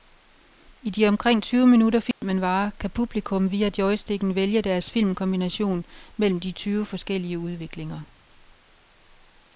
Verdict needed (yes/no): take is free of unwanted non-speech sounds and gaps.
no